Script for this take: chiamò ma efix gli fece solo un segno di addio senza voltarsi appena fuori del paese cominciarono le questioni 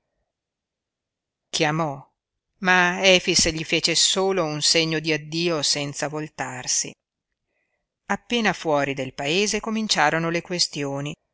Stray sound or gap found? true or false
false